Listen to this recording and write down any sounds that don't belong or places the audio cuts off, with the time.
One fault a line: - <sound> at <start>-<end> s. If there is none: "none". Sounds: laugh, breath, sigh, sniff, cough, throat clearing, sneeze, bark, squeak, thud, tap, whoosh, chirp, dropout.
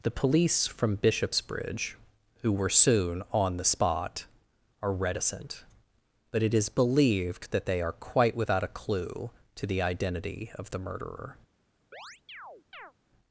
- chirp at 11.9-12.9 s